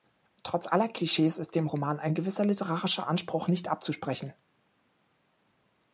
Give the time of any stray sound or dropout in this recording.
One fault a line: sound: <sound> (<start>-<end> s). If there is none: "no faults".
no faults